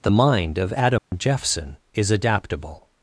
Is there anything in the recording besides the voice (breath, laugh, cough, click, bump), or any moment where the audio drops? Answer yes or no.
yes